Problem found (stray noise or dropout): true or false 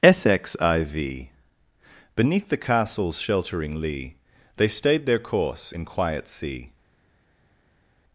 false